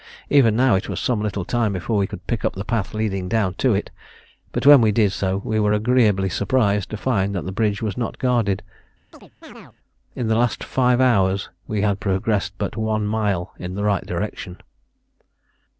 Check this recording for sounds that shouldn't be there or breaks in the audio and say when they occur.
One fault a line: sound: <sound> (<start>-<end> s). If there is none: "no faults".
sound: chirp (9.1-9.8 s)